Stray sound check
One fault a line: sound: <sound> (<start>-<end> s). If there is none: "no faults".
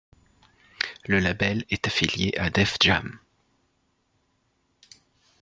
no faults